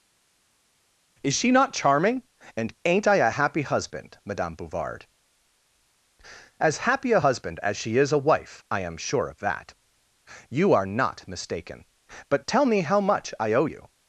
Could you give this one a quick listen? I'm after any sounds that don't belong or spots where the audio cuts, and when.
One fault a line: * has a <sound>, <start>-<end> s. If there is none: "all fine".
all fine